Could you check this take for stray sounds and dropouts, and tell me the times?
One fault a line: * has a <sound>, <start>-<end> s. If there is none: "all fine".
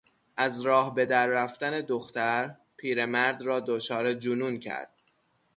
all fine